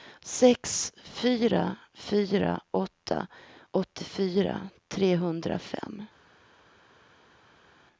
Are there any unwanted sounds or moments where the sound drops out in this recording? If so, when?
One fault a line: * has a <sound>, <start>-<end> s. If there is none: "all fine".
all fine